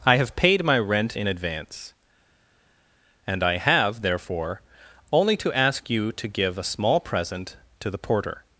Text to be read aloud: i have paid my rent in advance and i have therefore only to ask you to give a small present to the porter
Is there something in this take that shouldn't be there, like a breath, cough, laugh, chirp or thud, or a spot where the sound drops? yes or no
no